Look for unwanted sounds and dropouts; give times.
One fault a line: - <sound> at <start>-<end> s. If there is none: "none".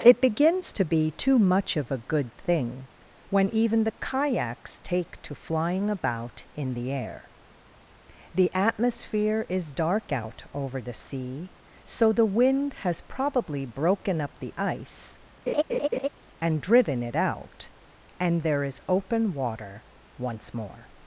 - laugh at 15.5-16.1 s